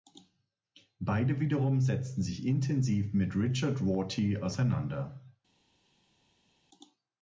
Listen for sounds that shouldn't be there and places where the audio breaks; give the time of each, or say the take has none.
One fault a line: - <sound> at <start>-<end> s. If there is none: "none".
none